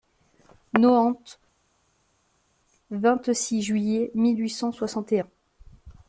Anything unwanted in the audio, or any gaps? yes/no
no